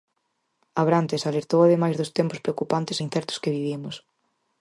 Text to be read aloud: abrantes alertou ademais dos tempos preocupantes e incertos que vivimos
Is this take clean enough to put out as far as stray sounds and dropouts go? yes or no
yes